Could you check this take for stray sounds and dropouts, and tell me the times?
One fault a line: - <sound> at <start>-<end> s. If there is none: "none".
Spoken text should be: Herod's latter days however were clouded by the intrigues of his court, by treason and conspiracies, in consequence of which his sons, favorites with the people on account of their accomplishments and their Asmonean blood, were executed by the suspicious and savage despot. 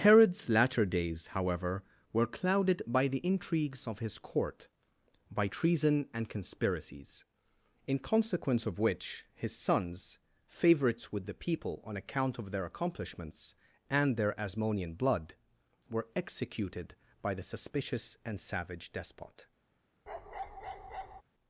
- bark at 20.1-21.2 s